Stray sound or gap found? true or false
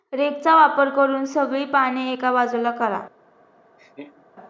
true